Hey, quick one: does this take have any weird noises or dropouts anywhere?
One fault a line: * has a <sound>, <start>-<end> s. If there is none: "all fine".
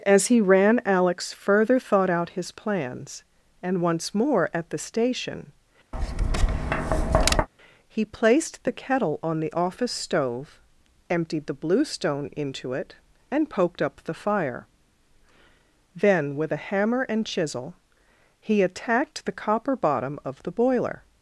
* has a tap, 5.9-7.5 s